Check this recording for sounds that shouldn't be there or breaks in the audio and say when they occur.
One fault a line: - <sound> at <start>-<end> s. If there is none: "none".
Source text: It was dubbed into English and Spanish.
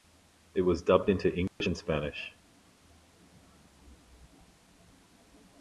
- dropout at 1.5-1.6 s